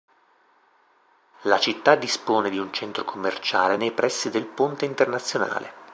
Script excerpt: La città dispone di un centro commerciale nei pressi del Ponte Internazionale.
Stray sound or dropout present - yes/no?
no